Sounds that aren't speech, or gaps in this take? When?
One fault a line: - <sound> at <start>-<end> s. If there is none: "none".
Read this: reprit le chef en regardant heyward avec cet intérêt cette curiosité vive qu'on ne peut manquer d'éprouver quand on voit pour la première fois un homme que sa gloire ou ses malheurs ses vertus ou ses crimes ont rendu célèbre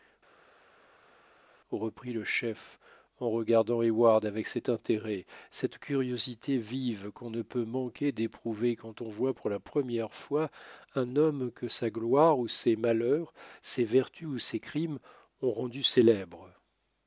none